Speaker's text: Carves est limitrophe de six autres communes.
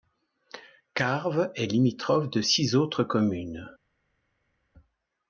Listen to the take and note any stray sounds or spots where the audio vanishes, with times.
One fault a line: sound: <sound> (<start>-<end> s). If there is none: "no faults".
no faults